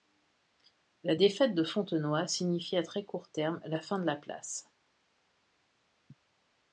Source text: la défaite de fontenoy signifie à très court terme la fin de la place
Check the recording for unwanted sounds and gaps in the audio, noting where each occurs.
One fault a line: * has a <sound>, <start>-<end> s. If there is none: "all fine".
all fine